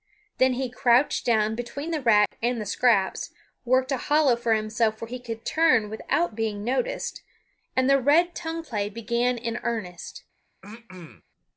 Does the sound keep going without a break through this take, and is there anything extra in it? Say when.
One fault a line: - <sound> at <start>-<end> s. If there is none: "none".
- dropout at 2.3-2.3 s
- throat clearing at 10.6-11.2 s